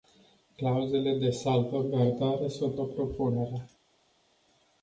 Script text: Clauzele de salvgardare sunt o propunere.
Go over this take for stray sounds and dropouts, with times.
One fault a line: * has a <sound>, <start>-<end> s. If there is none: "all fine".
all fine